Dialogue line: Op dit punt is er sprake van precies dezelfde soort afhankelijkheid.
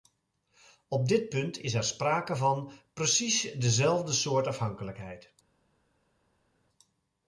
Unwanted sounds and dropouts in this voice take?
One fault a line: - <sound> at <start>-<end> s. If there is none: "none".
none